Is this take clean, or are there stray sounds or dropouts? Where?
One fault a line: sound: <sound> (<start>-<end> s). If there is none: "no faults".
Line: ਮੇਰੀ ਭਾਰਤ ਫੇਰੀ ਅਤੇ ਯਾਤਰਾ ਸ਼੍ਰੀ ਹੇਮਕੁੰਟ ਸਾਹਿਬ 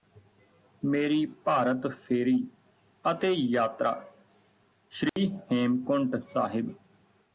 sound: dropout (5.1-5.2 s)